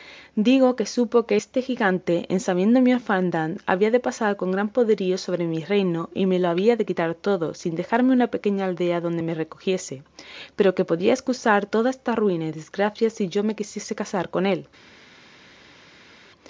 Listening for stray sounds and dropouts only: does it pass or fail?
pass